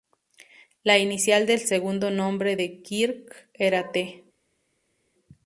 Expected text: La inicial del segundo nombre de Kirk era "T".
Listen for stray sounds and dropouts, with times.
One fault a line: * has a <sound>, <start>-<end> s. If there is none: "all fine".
all fine